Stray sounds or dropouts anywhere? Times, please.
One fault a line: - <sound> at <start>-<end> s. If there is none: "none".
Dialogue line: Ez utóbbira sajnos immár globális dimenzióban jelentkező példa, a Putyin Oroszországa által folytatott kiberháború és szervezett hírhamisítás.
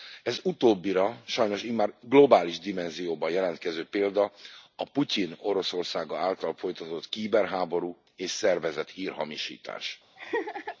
- laugh at 10.2-10.8 s